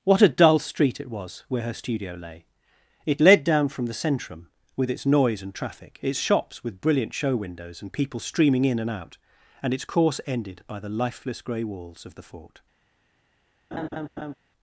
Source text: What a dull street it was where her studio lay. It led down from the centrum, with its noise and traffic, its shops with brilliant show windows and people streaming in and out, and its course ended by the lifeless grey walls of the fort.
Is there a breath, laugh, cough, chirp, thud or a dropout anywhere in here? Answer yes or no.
yes